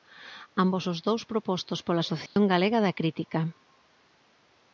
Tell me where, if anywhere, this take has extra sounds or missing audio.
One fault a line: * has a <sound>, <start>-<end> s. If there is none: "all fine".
* has a dropout, 2.3-2.4 s